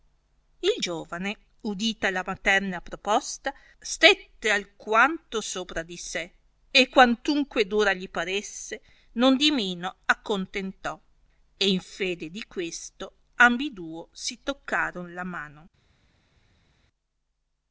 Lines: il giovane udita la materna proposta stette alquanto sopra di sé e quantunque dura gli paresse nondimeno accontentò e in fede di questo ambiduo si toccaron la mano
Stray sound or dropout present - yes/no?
no